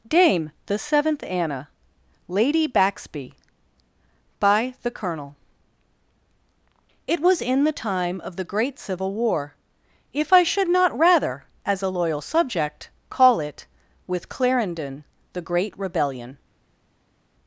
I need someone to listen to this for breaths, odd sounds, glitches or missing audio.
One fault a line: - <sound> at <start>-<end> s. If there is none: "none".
none